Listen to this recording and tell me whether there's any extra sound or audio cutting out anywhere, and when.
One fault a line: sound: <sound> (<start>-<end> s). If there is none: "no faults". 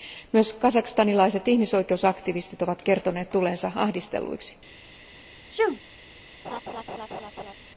sound: sneeze (5.5-5.8 s)
sound: laugh (6.4-7.5 s)